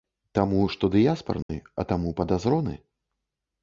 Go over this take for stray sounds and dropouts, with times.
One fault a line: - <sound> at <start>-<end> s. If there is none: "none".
- dropout at 1.4-1.5 s